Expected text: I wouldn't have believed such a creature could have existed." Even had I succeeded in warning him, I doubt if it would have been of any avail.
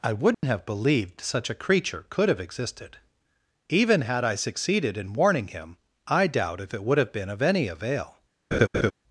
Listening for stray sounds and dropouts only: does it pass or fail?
fail